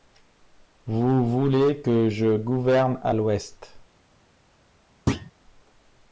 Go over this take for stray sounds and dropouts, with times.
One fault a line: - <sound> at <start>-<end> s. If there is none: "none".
- thud at 5.1-5.3 s